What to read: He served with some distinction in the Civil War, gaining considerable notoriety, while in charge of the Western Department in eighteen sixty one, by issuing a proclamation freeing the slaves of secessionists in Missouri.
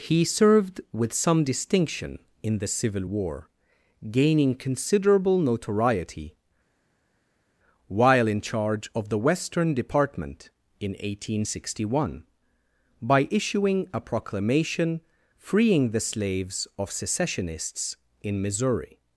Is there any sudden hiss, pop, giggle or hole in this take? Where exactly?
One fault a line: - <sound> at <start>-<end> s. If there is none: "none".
none